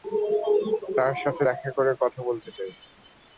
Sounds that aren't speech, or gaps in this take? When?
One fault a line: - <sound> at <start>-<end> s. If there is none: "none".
none